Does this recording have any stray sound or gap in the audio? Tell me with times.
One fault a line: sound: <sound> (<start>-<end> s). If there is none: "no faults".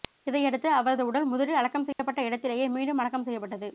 sound: dropout (1.9-2.0 s)